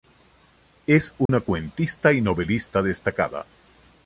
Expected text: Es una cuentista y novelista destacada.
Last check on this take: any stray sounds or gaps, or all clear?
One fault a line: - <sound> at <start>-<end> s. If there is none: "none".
- dropout at 1.3-1.3 s